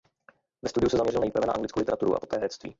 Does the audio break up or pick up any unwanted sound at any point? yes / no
no